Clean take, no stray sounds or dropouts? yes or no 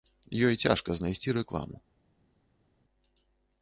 yes